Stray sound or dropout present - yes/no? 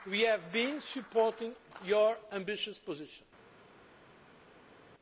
no